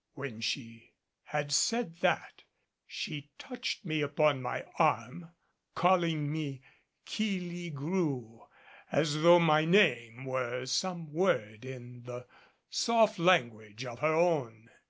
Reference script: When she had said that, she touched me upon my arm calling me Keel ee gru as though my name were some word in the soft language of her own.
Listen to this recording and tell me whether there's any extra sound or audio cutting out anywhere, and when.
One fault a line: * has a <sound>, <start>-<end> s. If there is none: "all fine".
all fine